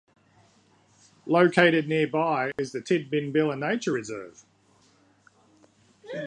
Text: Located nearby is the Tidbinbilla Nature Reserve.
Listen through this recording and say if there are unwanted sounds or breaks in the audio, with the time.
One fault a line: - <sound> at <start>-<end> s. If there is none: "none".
- dropout at 2.5-2.6 s